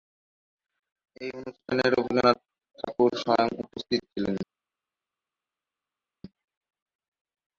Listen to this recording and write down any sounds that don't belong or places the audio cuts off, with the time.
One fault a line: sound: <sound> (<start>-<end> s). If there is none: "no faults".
no faults